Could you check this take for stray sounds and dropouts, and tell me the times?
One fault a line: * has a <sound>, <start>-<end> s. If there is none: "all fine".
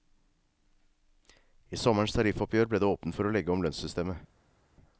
all fine